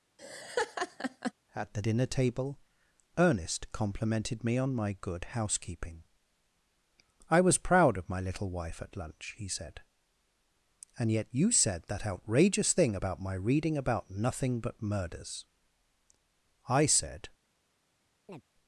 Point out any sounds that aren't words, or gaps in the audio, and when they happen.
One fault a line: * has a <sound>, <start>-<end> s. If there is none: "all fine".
* has a laugh, 0.2-1.3 s
* has a chirp, 18.3-18.4 s